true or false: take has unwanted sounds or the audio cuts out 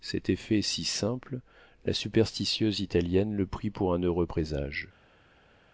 false